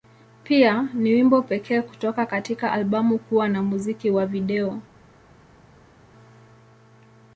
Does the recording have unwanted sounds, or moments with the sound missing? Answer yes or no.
no